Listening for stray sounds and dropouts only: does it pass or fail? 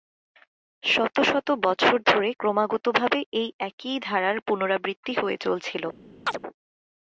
fail